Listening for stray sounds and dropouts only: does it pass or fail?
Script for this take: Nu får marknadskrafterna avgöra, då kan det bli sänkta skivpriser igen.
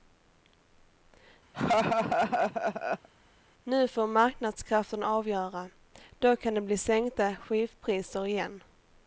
fail